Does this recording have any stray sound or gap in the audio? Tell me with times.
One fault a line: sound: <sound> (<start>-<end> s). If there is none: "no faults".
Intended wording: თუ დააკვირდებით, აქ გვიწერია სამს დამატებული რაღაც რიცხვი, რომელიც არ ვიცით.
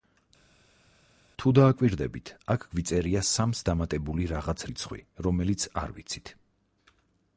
no faults